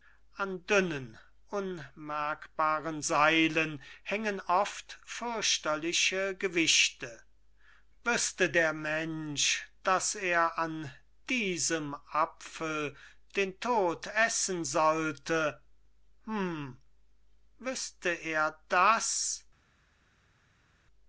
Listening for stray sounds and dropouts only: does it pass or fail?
pass